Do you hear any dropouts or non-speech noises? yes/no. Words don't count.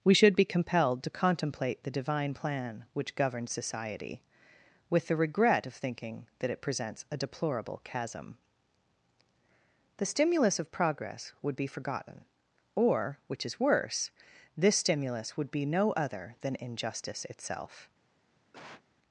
yes